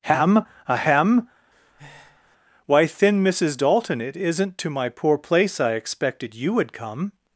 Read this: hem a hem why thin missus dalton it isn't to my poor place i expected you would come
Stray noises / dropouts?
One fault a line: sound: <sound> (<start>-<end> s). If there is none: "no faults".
sound: breath (1.5-2.4 s)